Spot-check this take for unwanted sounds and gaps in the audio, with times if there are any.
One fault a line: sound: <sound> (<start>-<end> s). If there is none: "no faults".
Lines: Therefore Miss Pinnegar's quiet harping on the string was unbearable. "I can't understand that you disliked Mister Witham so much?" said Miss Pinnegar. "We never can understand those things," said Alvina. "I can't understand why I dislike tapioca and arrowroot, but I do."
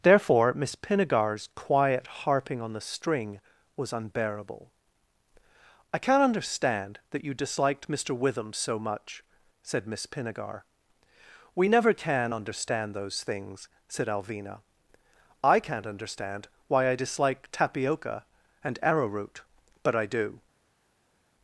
no faults